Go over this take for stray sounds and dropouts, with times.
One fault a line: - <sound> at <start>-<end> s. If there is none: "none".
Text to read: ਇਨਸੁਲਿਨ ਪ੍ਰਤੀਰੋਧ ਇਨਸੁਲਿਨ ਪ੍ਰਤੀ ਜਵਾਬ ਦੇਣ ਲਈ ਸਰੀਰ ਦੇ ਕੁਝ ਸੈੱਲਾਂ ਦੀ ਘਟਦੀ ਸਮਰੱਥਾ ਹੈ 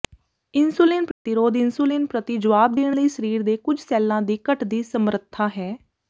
- dropout at 1.1-1.3 s